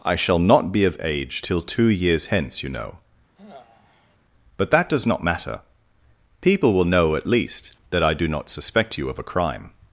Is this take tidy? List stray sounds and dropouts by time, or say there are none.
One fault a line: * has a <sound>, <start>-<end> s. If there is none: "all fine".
* has a sigh, 3.4-4.2 s